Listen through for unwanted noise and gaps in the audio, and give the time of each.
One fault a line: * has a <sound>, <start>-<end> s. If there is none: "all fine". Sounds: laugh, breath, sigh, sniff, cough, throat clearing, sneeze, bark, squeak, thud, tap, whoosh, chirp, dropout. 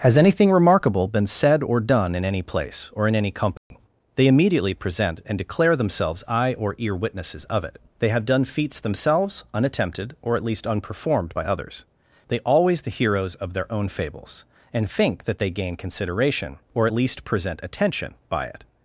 * has a dropout, 3.6-3.7 s